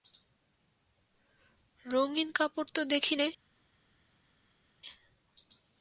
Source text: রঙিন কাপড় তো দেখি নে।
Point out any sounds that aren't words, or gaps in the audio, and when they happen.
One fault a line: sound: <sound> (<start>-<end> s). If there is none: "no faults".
no faults